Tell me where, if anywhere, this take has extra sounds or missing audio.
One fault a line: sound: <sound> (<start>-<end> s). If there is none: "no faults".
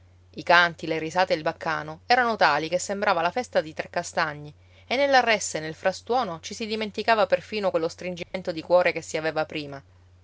sound: dropout (8.2-8.3 s)